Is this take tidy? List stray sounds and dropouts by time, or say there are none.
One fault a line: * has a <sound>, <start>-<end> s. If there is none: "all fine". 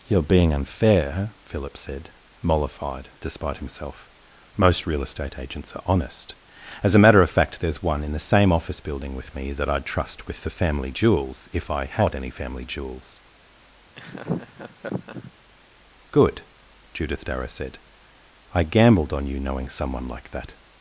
* has a laugh, 14.0-15.3 s